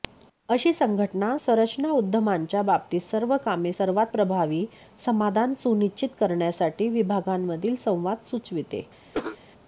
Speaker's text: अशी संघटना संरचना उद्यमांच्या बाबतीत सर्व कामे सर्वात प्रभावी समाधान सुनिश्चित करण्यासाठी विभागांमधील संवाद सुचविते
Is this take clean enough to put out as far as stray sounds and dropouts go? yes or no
no